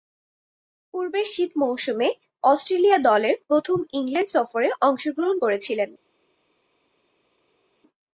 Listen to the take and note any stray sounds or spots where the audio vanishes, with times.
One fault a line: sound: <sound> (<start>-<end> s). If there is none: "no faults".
no faults